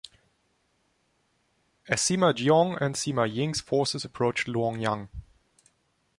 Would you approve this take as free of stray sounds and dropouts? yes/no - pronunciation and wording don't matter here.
yes